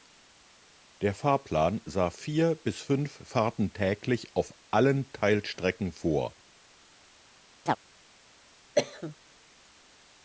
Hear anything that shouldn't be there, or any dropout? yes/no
yes